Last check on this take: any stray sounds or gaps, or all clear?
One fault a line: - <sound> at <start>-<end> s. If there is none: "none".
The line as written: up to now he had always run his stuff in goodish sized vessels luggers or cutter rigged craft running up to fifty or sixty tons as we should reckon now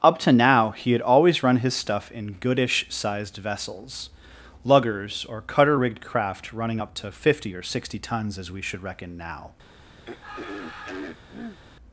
- throat clearing at 10.0-11.6 s